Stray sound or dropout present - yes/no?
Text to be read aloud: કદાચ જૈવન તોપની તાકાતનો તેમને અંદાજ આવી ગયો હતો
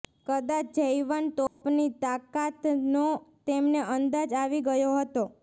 yes